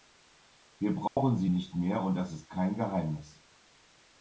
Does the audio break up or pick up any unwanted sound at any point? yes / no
yes